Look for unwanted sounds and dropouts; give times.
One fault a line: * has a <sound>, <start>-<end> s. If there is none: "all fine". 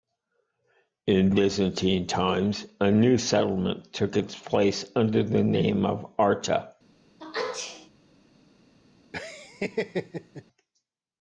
* has a sneeze, 7.2-7.9 s
* has a laugh, 9.1-10.4 s